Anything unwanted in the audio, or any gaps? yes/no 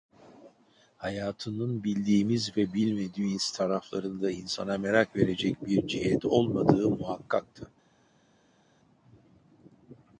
no